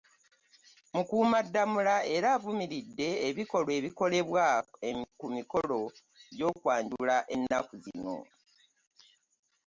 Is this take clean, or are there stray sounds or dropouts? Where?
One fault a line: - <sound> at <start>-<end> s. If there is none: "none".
none